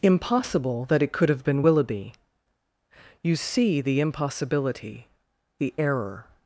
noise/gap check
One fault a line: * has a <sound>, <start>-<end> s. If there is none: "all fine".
all fine